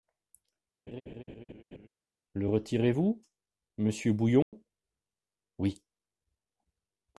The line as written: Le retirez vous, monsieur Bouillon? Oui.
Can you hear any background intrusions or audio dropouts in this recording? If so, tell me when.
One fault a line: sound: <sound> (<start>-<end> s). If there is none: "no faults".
sound: laugh (0.9-1.9 s)
sound: dropout (4.4-4.5 s)